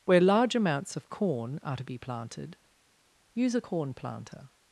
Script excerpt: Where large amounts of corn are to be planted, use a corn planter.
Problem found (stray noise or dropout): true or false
false